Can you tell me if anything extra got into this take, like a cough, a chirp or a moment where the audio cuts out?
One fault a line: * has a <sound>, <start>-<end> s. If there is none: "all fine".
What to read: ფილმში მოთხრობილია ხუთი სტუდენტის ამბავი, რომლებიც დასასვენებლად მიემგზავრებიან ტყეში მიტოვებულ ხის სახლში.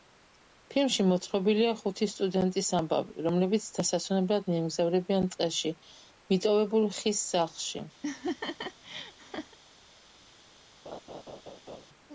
* has a laugh, 8.0-9.6 s
* has a laugh, 10.9-11.9 s